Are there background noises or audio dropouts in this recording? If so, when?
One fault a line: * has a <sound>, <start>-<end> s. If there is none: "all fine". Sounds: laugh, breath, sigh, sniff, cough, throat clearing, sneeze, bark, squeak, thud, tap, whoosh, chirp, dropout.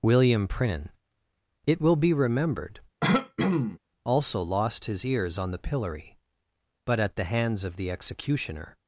* has a throat clearing, 3.0-3.8 s